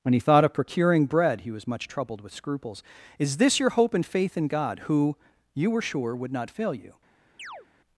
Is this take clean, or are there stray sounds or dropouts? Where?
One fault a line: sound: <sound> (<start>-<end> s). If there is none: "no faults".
sound: chirp (7.4-7.7 s)